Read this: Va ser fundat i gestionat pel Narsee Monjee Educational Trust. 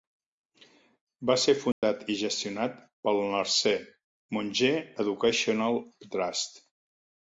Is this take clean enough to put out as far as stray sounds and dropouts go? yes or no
no